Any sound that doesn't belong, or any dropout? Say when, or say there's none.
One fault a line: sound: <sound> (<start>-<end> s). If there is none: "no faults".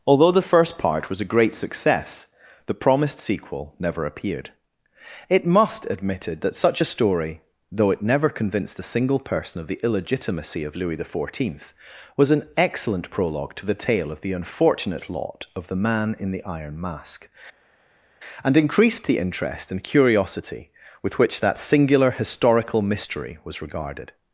no faults